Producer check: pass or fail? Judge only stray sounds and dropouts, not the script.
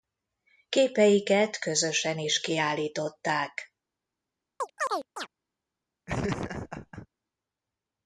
fail